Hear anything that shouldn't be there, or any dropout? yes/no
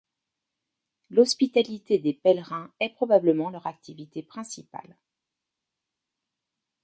no